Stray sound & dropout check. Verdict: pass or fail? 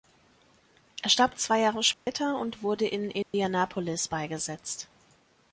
fail